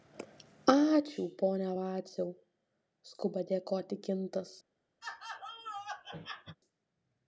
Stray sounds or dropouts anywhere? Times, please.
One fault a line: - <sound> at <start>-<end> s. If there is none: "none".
- laugh at 5.0-6.6 s